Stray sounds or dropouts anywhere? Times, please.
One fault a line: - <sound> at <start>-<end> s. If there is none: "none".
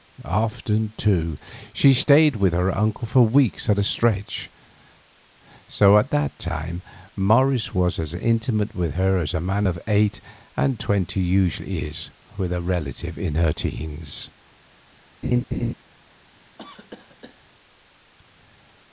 - laugh at 15.2-15.7 s
- cough at 16.6-17.4 s